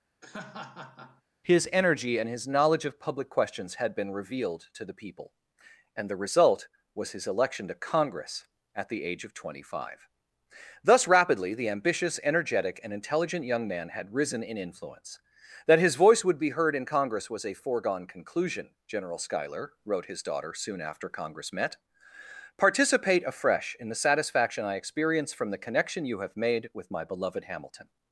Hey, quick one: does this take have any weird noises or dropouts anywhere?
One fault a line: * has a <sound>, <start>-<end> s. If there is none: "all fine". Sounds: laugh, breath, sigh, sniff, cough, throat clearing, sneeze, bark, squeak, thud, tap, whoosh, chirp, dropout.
* has a laugh, 0.2-1.2 s